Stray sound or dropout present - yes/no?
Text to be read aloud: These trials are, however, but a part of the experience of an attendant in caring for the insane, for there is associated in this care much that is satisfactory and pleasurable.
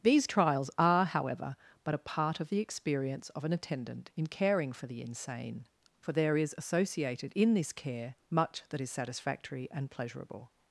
no